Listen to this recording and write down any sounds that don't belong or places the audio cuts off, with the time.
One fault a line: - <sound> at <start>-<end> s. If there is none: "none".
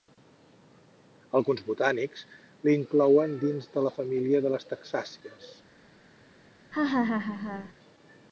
- laugh at 6.7-7.7 s